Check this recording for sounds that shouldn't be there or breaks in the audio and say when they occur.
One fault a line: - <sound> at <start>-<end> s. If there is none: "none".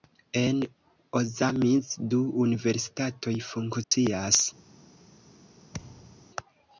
- dropout at 3.8-3.9 s
- thud at 5.7-6.3 s